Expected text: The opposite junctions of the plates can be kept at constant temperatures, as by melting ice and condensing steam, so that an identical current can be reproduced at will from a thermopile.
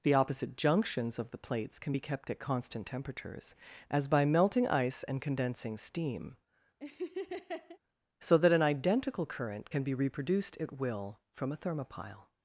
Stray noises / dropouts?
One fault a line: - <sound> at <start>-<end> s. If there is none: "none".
- laugh at 6.8-7.8 s